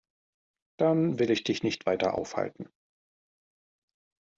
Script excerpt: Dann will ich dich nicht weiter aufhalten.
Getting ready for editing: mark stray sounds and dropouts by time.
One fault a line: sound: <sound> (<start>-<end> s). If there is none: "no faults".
no faults